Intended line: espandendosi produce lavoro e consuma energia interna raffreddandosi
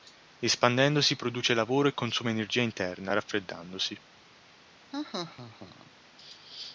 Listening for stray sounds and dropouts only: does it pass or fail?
fail